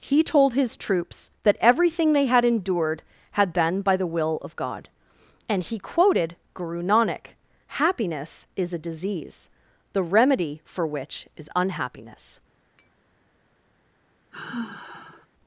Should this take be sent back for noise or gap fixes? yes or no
yes